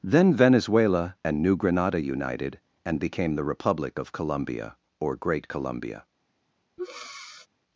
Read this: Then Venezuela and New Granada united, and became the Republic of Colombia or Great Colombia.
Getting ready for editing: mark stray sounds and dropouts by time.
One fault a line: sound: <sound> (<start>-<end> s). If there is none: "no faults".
sound: breath (6.8-7.5 s)